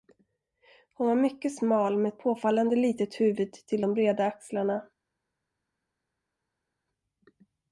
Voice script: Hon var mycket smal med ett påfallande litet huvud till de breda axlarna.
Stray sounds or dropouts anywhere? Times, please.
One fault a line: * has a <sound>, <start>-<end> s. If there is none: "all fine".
all fine